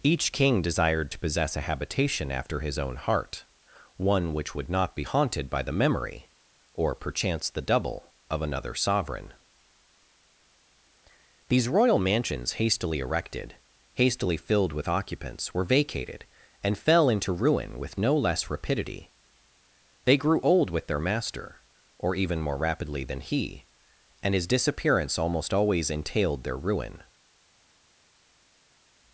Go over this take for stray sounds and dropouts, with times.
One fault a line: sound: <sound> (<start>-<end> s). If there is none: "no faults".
no faults